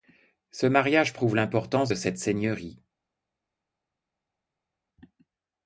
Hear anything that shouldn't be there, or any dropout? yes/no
no